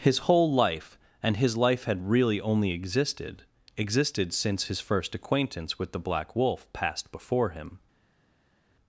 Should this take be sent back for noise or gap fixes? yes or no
no